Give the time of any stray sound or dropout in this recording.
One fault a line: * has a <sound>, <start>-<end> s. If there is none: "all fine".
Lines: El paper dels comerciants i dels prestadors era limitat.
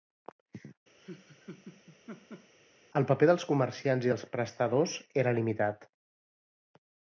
* has a laugh, 1.0-2.5 s